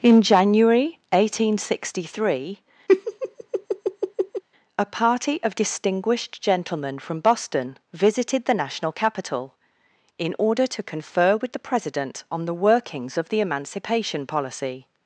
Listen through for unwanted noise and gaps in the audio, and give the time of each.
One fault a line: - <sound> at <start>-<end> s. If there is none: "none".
- laugh at 2.9-4.4 s